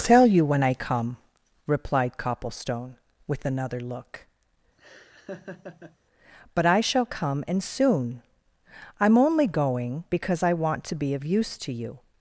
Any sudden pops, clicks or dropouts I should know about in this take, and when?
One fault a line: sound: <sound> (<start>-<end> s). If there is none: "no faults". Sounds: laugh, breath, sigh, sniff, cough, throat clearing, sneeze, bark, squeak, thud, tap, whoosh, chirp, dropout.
sound: laugh (4.8-6.0 s)